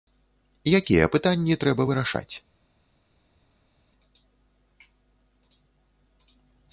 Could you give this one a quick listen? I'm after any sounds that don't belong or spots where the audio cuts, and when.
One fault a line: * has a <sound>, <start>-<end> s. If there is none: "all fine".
all fine